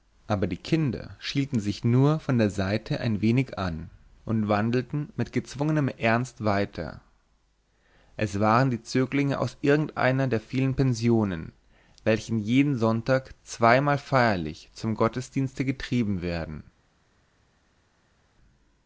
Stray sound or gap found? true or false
false